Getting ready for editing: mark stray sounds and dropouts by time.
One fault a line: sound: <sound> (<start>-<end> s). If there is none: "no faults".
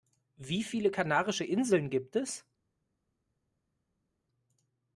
no faults